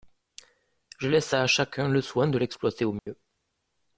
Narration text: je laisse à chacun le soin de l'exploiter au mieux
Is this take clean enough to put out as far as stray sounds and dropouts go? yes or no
no